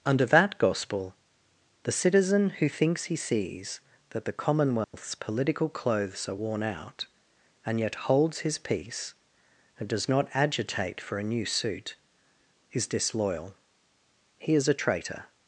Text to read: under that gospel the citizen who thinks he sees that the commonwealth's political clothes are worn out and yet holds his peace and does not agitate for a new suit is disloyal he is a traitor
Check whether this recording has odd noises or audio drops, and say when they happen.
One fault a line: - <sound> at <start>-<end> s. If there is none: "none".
- dropout at 4.8-4.9 s